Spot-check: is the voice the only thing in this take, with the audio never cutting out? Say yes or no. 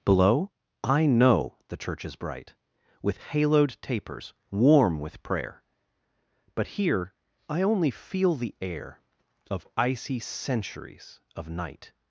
yes